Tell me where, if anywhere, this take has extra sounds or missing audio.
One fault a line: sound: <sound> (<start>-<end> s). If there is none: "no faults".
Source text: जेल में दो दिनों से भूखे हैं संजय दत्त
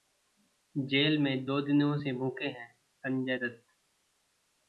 no faults